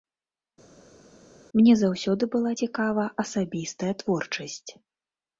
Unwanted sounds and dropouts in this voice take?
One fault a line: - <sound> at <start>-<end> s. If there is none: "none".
none